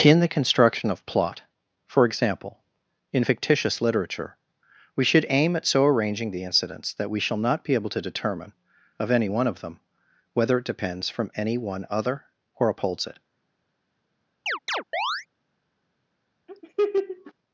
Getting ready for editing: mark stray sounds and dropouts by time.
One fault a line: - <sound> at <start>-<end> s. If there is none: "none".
- chirp at 14.5-15.3 s
- laugh at 16.5-17.3 s